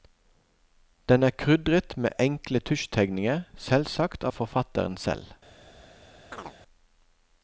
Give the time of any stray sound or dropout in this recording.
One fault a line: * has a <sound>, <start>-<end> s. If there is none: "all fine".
* has a chirp, 6.3-6.6 s